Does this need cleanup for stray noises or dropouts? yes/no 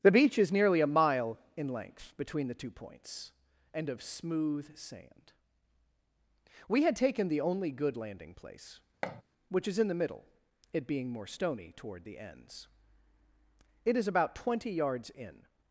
yes